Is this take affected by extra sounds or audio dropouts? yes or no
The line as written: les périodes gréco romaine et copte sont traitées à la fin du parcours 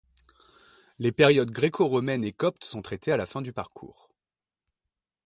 no